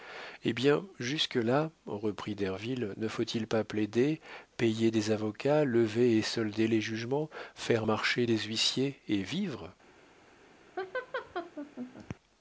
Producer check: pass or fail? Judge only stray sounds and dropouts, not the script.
fail